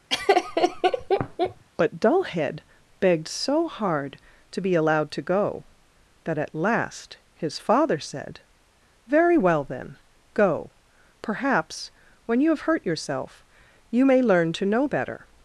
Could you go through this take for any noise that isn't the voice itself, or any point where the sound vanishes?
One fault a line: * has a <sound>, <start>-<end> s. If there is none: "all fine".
* has a laugh, 0.1-1.6 s